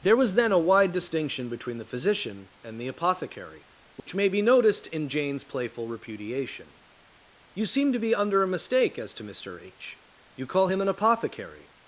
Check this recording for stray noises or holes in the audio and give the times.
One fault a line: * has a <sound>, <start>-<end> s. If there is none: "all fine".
* has a dropout, 4.0-4.1 s